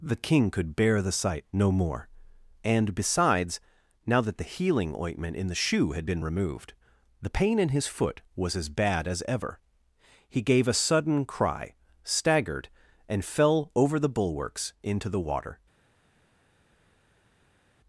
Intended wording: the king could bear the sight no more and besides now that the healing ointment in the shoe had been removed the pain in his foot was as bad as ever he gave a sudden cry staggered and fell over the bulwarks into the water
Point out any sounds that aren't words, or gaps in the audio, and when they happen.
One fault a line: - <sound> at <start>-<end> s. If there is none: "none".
none